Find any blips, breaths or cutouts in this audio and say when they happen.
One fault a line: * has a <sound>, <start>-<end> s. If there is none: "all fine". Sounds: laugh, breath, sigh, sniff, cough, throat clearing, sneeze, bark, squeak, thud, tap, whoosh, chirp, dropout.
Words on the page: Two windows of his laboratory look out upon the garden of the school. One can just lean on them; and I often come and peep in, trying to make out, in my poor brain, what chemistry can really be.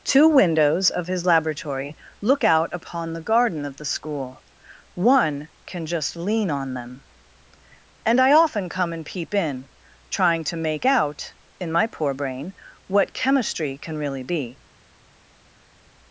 all fine